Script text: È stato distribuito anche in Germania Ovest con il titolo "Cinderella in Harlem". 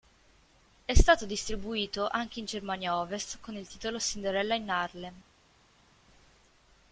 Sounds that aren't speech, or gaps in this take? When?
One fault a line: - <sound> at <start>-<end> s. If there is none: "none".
none